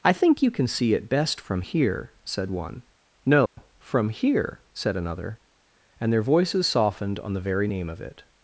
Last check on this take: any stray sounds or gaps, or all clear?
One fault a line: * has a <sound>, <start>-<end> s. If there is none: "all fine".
* has a dropout, 3.5-3.6 s